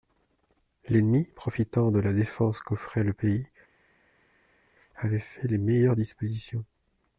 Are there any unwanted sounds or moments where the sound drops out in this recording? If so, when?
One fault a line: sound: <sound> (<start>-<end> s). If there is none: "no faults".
no faults